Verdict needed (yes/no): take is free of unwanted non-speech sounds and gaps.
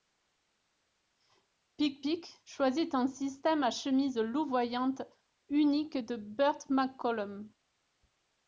yes